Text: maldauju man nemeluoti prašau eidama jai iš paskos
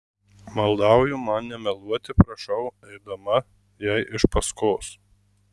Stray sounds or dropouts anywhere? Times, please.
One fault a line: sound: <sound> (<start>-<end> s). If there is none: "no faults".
no faults